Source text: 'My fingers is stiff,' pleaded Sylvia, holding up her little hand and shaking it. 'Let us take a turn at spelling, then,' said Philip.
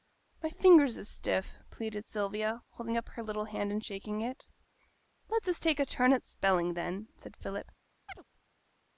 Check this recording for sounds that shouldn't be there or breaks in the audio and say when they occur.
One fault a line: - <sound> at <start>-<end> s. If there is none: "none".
- chirp at 8.1-8.2 s